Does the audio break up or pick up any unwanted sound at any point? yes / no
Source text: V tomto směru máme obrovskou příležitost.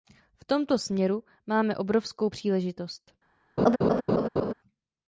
yes